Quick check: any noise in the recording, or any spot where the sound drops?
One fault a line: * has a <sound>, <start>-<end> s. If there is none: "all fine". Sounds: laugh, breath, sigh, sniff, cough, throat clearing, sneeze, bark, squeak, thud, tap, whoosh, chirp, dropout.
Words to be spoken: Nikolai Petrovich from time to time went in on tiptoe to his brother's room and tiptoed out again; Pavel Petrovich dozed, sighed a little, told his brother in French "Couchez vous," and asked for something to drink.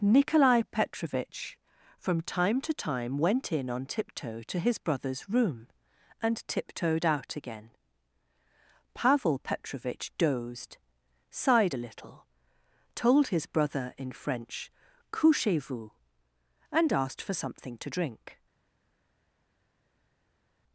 all fine